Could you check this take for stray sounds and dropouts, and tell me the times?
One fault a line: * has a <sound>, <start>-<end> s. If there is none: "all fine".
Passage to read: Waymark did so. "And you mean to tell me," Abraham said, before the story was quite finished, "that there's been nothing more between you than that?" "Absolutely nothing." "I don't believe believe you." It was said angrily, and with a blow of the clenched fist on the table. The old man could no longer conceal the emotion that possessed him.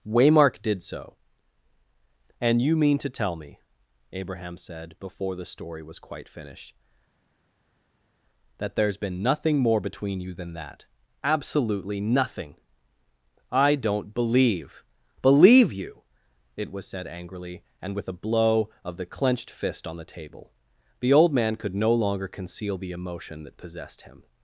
all fine